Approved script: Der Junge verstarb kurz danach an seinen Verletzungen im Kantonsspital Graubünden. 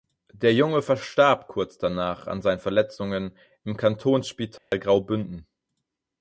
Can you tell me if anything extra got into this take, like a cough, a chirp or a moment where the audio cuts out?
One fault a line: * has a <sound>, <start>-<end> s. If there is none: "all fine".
* has a dropout, 4.6-4.7 s